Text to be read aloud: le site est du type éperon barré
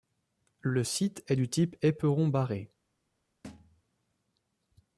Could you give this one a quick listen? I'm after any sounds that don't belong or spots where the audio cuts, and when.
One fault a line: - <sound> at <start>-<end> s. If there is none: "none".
- thud at 3.4-3.8 s